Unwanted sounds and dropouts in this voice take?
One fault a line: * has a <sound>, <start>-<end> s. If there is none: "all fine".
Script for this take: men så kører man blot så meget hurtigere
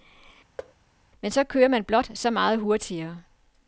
* has a thud, 0.6-0.7 s